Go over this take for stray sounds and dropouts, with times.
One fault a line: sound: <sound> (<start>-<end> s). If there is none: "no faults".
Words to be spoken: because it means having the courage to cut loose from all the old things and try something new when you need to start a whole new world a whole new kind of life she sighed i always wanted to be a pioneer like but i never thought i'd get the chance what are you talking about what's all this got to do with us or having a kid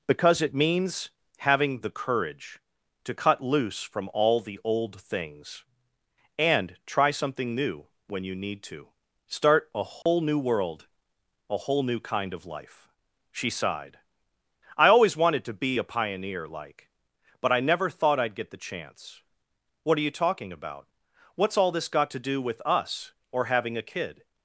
sound: dropout (10.0-10.1 s)